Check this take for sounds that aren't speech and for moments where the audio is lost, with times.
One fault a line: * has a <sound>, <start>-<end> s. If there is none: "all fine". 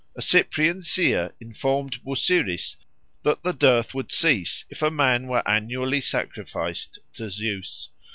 all fine